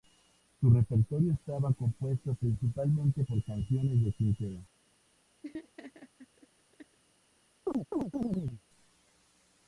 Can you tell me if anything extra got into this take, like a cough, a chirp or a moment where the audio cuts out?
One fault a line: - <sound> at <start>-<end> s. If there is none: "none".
- laugh at 5.4-7.0 s
- chirp at 7.7-8.6 s